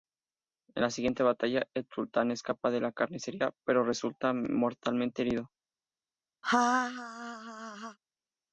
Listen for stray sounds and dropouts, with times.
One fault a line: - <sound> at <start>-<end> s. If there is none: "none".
- laugh at 6.4-8.0 s